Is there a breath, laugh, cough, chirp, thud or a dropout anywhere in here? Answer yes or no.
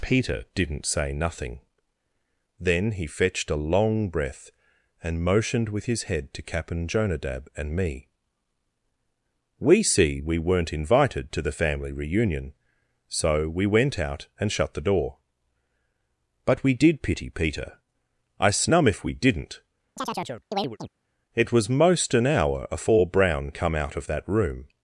yes